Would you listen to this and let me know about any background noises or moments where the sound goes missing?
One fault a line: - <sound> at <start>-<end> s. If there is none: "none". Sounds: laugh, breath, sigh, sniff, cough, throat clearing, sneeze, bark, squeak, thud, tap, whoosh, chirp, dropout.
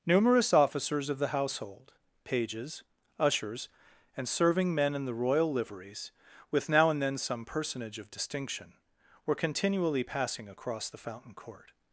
none